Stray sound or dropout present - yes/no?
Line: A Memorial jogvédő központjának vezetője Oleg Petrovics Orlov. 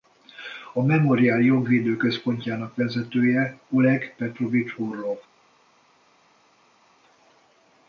no